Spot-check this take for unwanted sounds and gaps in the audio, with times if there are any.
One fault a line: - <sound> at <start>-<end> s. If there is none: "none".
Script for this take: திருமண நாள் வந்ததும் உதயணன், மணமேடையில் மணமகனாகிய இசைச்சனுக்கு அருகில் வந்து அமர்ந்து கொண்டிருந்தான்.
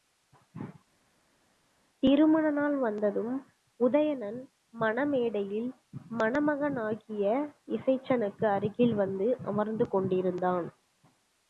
none